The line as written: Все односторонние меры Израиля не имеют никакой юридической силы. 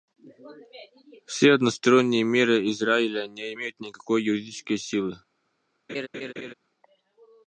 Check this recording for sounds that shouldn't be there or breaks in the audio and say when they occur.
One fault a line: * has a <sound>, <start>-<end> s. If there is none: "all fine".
* has a laugh, 5.9-6.5 s